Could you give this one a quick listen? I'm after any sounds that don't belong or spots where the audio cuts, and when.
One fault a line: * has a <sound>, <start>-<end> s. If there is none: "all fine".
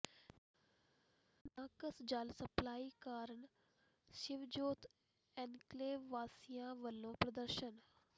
all fine